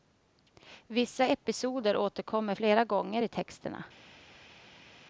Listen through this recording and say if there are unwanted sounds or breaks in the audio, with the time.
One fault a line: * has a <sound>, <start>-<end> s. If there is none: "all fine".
all fine